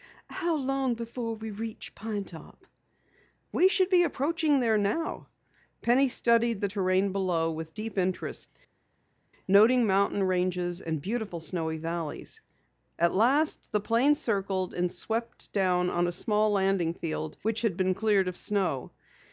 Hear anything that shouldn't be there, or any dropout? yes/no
no